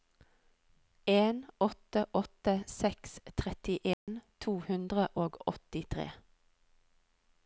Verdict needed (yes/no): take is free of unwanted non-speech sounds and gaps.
no